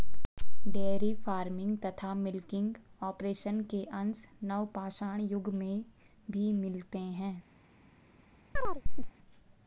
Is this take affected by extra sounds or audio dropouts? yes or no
yes